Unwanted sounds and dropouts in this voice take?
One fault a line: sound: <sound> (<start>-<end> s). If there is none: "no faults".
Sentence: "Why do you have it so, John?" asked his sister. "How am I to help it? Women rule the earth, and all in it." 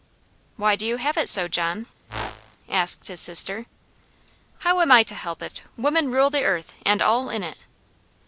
sound: whoosh (2.1-2.6 s)